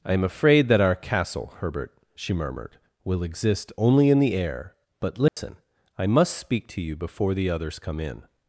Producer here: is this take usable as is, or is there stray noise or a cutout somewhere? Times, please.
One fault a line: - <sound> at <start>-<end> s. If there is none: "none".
- dropout at 5.3-5.4 s